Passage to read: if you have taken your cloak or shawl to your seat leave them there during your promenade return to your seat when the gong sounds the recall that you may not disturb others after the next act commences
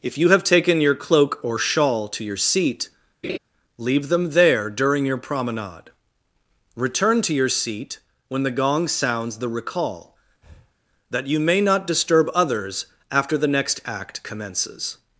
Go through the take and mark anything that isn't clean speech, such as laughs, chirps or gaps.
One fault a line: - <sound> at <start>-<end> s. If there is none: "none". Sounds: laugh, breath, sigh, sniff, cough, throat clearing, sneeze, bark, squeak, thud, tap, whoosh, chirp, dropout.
- laugh at 3.2-3.4 s
- breath at 10.4-10.7 s